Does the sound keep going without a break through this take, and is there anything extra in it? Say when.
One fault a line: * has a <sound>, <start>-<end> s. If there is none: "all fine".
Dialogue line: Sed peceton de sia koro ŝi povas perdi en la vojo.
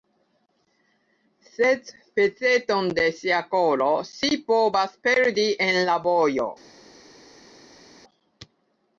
all fine